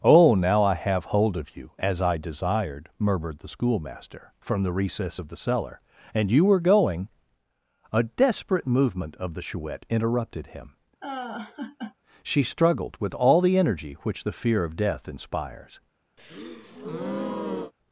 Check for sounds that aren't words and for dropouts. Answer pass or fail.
fail